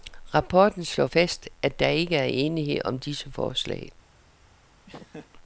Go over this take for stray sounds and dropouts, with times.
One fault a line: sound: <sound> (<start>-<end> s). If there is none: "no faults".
sound: laugh (4.9-5.3 s)